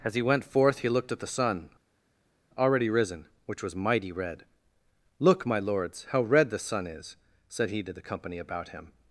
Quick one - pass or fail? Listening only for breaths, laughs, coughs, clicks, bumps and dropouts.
pass